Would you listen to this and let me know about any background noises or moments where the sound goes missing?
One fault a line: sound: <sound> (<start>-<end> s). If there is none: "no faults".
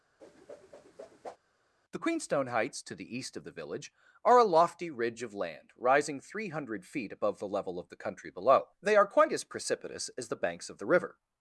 sound: whoosh (0.2-1.4 s)